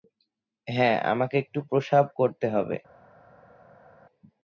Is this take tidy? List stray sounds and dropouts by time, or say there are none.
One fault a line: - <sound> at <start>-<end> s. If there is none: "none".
none